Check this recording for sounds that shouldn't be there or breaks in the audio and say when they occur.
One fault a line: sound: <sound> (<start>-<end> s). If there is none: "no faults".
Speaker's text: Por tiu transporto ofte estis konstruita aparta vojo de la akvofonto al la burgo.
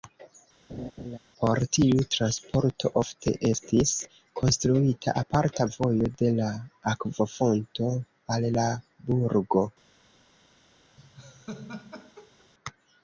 sound: laugh (0.7-1.2 s)
sound: laugh (11.0-12.5 s)